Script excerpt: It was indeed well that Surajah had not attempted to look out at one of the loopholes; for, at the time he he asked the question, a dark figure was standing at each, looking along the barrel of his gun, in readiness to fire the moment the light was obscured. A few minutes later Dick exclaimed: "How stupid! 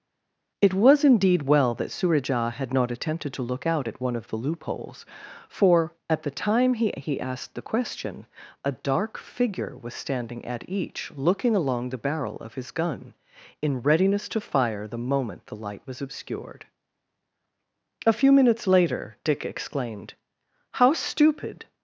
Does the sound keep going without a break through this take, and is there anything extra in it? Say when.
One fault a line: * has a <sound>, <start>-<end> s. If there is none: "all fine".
all fine